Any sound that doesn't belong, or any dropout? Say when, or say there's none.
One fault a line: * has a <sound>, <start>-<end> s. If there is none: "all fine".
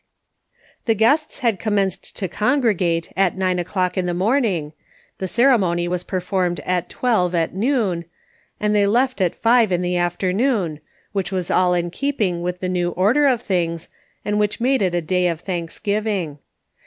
all fine